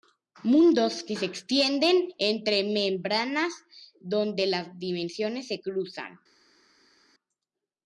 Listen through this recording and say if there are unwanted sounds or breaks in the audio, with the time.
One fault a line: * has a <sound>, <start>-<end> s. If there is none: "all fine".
all fine